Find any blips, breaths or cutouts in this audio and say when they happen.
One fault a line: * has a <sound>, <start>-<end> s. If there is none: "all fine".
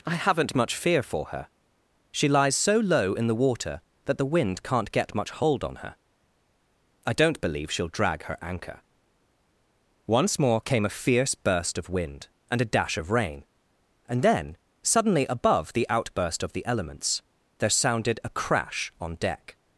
all fine